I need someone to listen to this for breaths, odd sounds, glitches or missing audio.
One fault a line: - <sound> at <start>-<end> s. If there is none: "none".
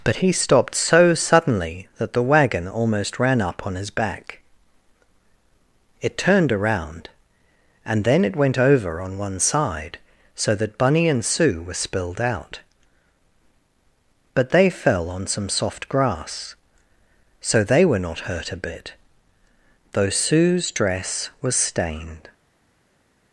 none